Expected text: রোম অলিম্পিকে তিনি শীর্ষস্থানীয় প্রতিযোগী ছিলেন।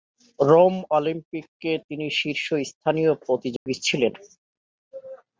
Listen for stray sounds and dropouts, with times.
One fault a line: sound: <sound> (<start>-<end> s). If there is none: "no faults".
sound: dropout (3.6-3.7 s)